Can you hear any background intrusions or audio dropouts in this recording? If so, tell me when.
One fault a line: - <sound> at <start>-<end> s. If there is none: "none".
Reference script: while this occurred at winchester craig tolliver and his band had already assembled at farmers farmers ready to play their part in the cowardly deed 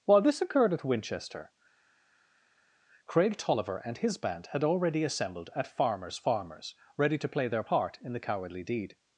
none